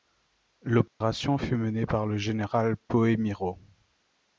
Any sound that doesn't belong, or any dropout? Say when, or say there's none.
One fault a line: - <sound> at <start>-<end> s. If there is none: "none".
- dropout at 0.9-1.0 s